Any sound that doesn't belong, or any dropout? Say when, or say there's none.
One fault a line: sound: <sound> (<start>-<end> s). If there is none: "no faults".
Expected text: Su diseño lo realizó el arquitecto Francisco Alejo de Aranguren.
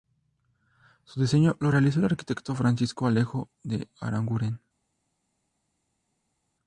no faults